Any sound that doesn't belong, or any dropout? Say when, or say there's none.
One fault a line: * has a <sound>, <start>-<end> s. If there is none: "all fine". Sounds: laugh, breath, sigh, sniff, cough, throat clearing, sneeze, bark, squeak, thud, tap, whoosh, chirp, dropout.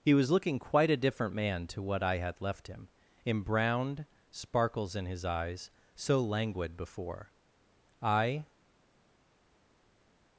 all fine